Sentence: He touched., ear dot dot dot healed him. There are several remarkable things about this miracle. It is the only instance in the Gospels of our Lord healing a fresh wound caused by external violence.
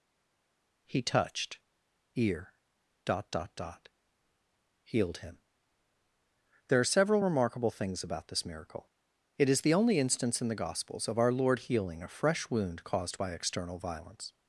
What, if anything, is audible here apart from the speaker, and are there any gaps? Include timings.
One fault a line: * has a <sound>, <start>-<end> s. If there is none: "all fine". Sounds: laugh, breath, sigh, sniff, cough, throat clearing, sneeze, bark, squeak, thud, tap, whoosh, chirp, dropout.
all fine